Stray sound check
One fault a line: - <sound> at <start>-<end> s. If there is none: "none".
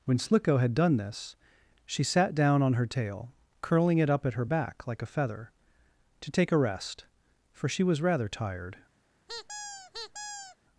- squeak at 9.3-10.6 s